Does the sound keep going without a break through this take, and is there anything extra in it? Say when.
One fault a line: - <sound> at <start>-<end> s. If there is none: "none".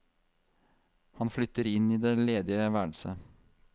none